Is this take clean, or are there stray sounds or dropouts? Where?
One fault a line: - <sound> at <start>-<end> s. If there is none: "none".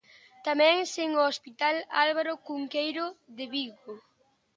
none